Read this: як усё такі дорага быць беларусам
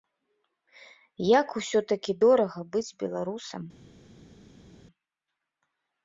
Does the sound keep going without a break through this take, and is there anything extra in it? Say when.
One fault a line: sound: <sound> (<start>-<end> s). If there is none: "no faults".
no faults